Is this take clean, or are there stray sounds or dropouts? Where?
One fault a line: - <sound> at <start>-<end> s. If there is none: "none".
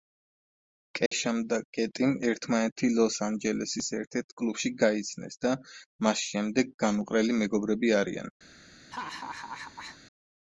- dropout at 1.1-1.1 s
- laugh at 8.9-10.0 s